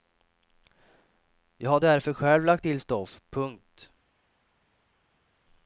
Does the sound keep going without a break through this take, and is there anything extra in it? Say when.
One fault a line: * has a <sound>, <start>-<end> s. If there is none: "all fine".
all fine